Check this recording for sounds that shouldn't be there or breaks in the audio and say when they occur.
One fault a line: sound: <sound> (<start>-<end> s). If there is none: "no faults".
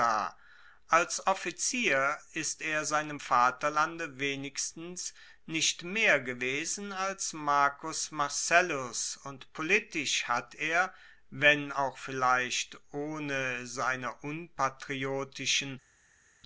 no faults